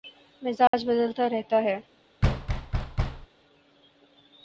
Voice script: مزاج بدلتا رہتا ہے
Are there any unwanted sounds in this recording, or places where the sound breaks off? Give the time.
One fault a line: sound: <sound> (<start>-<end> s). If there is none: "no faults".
sound: dropout (0.7-0.7 s)
sound: thud (2.2-3.3 s)